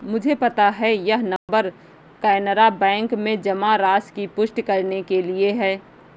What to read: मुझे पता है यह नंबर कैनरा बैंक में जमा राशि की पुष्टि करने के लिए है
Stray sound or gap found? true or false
true